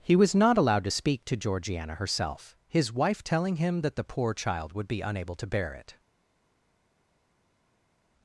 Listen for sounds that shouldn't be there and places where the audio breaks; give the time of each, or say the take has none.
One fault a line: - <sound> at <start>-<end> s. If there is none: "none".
none